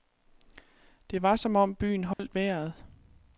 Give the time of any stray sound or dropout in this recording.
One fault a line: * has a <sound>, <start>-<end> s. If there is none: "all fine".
* has a dropout, 2.1-2.2 s